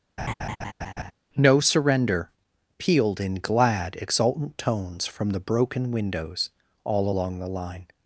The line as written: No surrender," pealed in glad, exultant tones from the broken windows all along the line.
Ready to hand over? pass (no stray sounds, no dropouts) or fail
fail